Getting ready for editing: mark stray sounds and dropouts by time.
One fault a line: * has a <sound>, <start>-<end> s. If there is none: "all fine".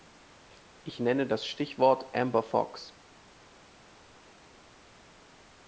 all fine